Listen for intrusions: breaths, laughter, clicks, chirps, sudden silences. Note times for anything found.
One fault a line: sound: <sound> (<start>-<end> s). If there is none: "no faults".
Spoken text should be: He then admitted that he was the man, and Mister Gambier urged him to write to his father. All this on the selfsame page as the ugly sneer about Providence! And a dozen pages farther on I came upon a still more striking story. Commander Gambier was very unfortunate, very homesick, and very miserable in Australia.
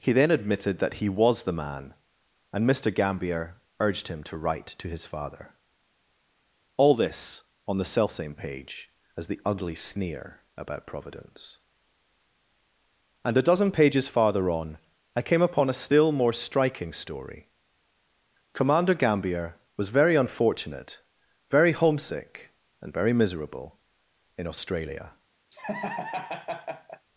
sound: laugh (25.5-27.1 s)